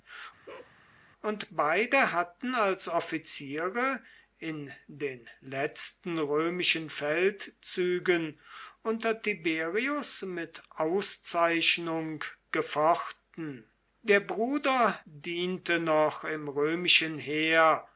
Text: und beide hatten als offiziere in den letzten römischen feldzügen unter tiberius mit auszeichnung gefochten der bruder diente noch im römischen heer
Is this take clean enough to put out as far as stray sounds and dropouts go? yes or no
no